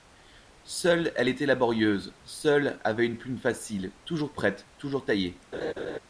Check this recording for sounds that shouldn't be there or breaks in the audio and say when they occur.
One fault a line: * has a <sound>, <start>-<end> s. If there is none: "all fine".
* has a laugh, 5.5-6.0 s